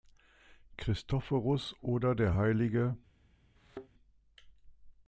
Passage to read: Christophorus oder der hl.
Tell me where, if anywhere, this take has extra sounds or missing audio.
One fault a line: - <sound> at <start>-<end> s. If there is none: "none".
- thud at 3.6-3.9 s